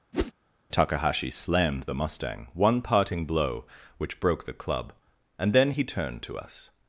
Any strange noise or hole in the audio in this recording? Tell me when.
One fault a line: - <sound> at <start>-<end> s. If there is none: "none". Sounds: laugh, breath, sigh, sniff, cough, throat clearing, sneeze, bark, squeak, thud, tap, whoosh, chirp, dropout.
- whoosh at 0.1-0.3 s